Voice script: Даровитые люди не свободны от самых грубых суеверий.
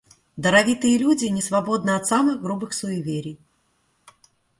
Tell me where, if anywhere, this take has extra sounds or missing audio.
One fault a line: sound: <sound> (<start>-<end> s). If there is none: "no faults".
no faults